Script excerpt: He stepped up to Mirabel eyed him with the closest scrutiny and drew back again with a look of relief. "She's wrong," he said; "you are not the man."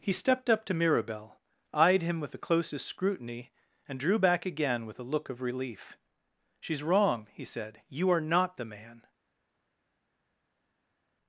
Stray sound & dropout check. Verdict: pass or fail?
pass